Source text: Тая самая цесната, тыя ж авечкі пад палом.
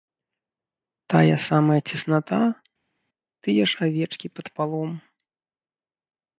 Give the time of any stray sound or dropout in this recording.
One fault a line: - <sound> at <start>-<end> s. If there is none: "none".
none